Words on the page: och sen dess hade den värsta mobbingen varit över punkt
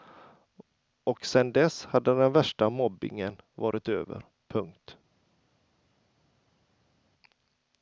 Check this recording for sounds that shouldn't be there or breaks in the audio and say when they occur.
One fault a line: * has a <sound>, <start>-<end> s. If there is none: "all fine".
all fine